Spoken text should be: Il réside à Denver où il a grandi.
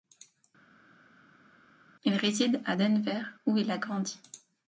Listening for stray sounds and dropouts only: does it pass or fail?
pass